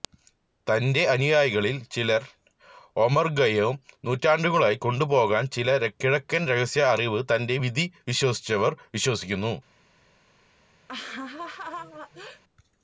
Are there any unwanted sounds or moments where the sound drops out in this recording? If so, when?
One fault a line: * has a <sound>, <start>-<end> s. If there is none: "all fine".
* has a laugh, 10.9-12.4 s